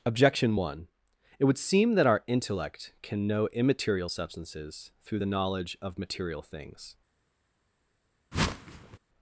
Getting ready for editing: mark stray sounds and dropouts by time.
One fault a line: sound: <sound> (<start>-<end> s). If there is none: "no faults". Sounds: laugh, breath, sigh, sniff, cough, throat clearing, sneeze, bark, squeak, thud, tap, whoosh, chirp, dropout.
sound: whoosh (8.3-9.0 s)